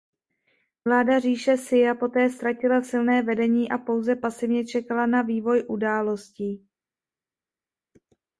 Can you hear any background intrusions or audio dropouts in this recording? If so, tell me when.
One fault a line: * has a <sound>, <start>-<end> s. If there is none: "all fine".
all fine